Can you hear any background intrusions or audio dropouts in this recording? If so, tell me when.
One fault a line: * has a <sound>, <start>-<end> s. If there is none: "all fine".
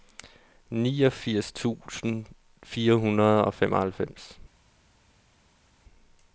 all fine